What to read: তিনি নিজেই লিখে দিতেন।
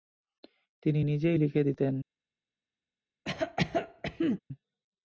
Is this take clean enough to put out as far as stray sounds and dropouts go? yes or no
no